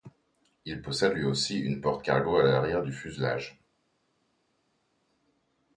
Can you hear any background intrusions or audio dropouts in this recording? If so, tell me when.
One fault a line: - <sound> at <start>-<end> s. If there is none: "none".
none